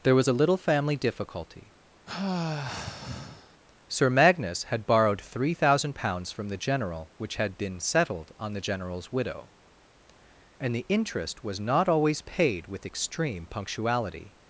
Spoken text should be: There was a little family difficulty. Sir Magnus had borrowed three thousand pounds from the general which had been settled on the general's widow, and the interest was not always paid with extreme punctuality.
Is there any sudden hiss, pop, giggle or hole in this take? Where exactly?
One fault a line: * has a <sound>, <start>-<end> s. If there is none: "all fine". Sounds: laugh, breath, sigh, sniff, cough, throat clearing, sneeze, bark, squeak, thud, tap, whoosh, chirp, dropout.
* has a sigh, 2.1-3.6 s